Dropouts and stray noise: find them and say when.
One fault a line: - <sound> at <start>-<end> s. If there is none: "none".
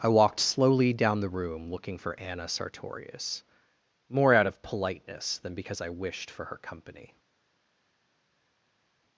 none